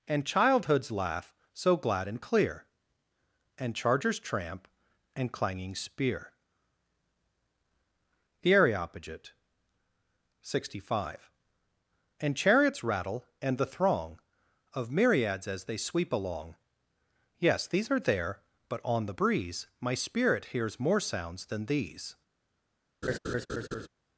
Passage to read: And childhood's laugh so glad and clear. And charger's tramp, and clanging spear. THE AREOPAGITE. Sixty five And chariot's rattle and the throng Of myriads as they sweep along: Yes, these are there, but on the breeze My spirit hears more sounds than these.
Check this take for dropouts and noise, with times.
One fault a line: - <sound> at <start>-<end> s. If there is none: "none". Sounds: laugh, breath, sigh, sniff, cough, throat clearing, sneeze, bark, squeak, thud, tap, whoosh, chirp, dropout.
- laugh at 23.0-23.9 s